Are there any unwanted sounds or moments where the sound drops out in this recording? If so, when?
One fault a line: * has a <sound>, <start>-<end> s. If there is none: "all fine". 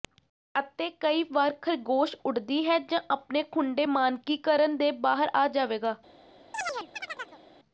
* has a chirp, 6.5-7.4 s